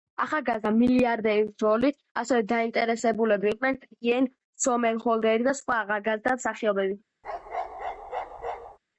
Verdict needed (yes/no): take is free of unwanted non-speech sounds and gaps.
no